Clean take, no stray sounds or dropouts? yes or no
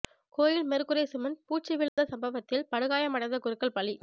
no